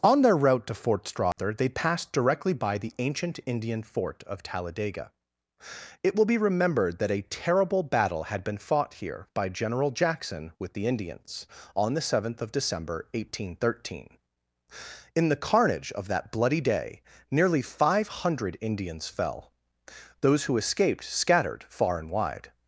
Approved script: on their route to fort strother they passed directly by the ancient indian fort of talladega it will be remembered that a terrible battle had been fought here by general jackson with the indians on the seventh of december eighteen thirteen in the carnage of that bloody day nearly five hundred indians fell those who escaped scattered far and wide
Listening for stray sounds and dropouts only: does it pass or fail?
fail